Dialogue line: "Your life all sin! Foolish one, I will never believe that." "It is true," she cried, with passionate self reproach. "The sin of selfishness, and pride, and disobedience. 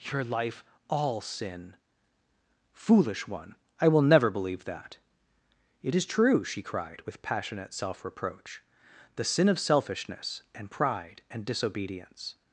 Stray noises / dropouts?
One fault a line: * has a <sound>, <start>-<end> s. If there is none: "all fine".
all fine